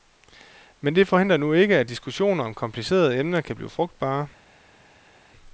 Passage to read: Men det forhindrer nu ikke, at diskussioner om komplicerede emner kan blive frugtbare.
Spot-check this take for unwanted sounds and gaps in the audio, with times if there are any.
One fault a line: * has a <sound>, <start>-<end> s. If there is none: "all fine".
all fine